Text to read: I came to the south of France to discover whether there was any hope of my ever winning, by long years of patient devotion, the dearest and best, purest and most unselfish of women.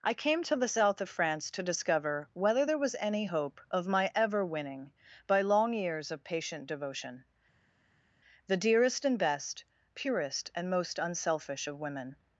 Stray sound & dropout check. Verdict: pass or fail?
pass